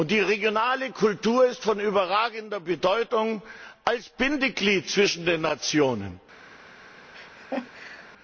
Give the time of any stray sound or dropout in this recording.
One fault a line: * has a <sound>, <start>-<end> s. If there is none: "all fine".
* has a laugh, 7.1-8.1 s